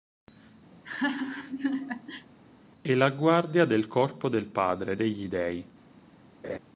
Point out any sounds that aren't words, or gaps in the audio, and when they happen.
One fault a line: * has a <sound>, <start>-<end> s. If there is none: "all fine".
* has a laugh, 0.7-2.3 s
* has a laugh, 6.4-6.6 s